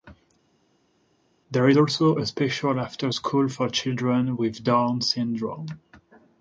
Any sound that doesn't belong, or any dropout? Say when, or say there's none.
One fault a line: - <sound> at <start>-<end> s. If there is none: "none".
none